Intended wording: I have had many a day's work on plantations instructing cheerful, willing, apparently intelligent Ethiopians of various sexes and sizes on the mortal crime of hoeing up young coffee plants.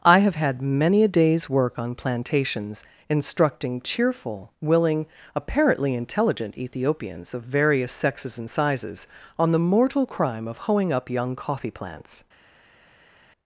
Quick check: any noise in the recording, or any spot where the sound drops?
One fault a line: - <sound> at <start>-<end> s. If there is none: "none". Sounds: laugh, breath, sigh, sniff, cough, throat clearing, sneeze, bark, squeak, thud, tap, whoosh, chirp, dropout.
none